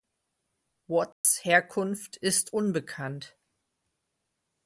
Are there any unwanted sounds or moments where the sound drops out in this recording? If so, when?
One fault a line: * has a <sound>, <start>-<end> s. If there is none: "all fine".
* has a dropout, 1.1-1.2 s